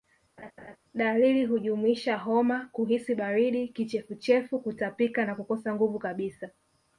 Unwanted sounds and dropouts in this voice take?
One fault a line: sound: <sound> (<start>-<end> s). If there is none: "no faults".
sound: laugh (0.4-0.8 s)